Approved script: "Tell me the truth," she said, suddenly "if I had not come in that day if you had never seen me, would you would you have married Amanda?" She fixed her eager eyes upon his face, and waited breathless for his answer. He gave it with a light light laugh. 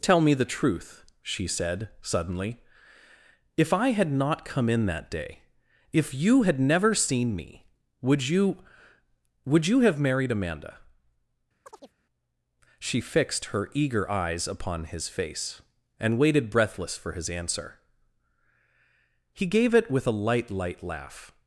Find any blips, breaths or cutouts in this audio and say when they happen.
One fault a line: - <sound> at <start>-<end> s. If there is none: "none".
- chirp at 11.6-11.9 s